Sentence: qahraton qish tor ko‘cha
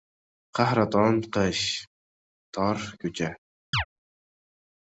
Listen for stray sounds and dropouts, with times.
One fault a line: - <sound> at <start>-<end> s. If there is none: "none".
- chirp at 3.7-3.8 s